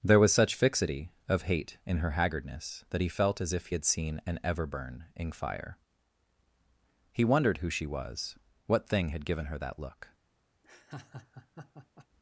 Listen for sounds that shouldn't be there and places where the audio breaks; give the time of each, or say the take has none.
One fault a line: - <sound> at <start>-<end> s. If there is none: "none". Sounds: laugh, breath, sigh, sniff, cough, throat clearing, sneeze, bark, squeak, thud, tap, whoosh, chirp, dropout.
- laugh at 10.6-12.1 s